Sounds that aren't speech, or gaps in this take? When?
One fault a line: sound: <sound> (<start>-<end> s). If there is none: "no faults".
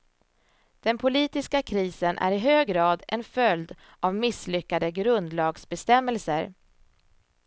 no faults